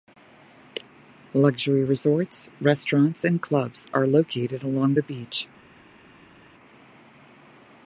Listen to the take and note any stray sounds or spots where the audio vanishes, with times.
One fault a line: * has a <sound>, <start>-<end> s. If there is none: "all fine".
all fine